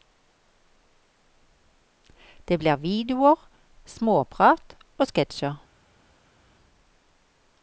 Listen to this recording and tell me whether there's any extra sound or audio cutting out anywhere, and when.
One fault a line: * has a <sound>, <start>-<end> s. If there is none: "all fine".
all fine